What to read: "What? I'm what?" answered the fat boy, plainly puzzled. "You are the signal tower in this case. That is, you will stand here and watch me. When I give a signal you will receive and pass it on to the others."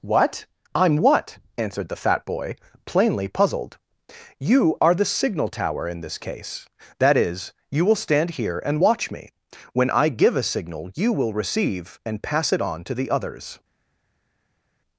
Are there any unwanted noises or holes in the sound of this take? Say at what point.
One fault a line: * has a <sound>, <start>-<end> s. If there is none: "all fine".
all fine